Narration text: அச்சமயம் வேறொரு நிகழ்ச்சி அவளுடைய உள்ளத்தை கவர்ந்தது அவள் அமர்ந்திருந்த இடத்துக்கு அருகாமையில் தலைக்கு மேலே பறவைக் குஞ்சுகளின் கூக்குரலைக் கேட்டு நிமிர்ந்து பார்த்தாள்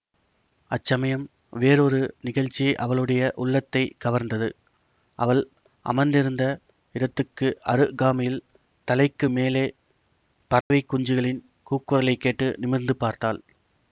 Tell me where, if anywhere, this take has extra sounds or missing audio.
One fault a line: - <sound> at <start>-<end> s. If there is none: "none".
- dropout at 10.6-10.7 s